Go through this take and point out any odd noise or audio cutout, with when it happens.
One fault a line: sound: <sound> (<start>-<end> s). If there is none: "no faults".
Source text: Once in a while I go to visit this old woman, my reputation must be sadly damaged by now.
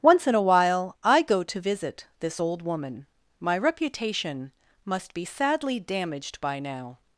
no faults